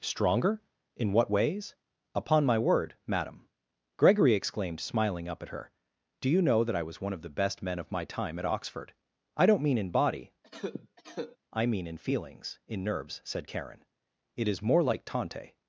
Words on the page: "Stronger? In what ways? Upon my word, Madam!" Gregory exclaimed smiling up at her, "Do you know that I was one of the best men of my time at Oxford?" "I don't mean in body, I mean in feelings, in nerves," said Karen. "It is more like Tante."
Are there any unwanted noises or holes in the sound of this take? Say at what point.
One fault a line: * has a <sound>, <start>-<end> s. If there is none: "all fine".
* has a cough, 10.4-11.4 s